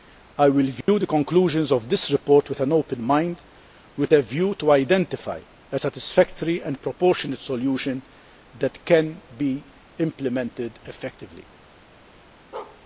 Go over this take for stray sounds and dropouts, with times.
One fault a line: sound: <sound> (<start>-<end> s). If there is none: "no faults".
sound: dropout (0.8-0.9 s)
sound: bark (12.5-12.8 s)